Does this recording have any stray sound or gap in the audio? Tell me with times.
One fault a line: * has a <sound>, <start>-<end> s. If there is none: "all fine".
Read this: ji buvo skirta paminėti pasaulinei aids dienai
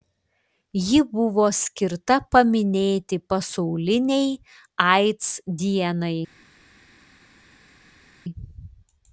all fine